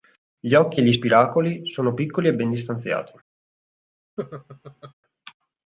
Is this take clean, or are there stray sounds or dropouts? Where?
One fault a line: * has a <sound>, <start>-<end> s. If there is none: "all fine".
* has a laugh, 4.2-4.9 s